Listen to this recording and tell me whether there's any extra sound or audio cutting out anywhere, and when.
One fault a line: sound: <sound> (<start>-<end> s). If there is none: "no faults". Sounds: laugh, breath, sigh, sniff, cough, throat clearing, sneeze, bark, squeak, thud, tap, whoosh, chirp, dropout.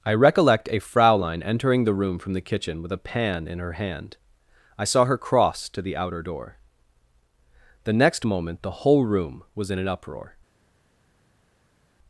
no faults